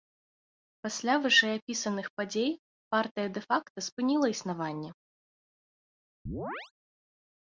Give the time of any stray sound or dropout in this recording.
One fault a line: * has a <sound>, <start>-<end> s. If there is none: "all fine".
* has a chirp, 6.3-6.7 s